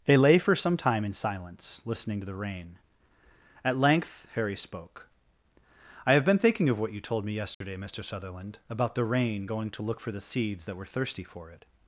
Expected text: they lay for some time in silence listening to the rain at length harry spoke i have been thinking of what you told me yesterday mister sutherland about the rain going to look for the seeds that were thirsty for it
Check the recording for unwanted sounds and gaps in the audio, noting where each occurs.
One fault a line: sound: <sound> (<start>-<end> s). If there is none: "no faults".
sound: dropout (7.5-7.6 s)